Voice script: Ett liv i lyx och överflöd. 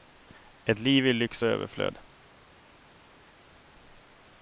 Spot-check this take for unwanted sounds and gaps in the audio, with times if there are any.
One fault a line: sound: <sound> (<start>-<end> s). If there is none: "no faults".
no faults